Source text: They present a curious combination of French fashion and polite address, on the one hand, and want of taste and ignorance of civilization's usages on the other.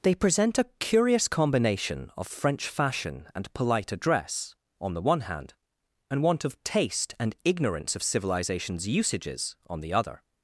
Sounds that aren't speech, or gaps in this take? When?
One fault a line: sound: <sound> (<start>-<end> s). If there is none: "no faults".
no faults